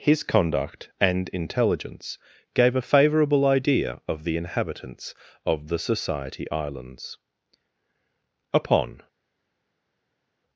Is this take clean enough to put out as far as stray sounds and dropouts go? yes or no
yes